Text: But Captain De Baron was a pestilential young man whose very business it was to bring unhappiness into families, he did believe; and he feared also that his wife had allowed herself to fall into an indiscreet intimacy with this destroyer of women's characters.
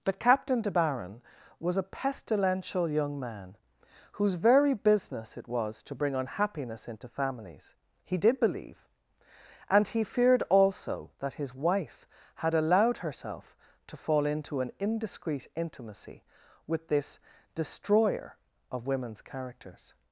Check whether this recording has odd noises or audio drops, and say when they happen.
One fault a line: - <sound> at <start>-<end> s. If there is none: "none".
none